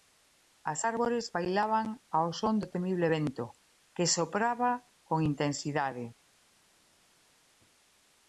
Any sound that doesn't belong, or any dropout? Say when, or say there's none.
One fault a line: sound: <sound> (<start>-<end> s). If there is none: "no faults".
no faults